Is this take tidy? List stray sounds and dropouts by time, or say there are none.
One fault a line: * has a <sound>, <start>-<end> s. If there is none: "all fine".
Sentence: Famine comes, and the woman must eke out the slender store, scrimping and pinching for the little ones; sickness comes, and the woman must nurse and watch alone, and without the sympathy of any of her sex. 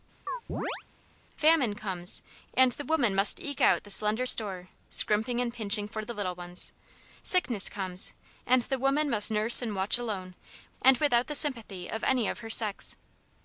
* has a chirp, 0.3-0.8 s